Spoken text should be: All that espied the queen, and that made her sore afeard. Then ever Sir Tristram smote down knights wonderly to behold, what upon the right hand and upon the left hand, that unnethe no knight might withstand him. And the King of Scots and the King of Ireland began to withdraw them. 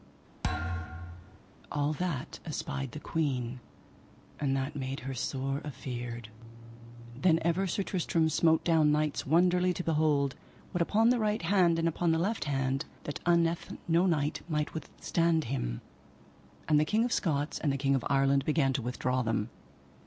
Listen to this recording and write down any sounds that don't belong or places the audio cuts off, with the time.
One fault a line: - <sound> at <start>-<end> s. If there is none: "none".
- thud at 0.4-1.4 s